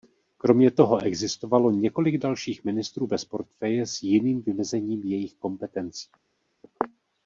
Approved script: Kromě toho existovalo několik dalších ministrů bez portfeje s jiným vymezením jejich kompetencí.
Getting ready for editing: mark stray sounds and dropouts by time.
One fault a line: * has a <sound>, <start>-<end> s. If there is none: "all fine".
all fine